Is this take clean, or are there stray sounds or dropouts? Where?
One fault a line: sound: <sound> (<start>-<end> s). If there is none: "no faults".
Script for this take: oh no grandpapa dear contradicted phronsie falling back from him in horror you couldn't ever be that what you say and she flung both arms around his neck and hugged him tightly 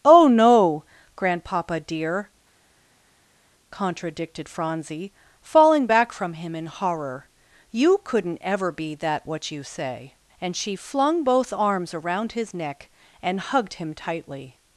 no faults